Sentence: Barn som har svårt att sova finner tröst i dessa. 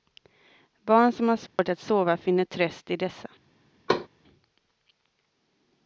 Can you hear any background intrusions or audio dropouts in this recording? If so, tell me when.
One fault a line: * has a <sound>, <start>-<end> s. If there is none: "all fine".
* has a dropout, 1.5-1.6 s
* has a thud, 3.9-4.1 s